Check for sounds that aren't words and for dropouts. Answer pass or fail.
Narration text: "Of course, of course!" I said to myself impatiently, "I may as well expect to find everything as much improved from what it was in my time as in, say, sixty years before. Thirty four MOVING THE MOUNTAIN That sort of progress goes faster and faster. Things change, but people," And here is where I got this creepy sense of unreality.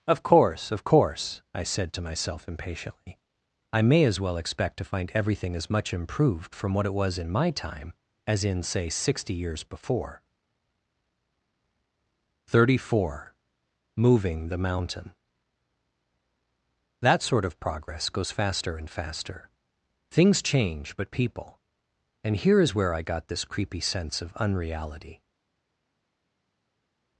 pass